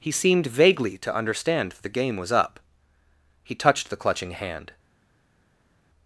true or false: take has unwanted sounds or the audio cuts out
false